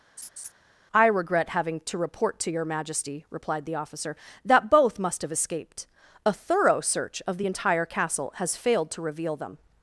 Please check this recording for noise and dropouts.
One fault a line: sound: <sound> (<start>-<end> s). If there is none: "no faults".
sound: laugh (0.2-0.5 s)